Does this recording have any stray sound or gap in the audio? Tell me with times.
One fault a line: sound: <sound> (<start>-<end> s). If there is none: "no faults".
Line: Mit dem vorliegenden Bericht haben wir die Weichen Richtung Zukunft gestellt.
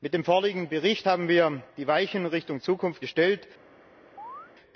sound: chirp (4.2-4.5 s)